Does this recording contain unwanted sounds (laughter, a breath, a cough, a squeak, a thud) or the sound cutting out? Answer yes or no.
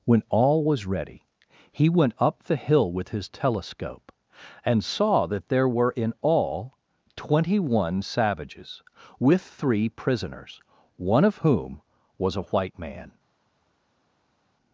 no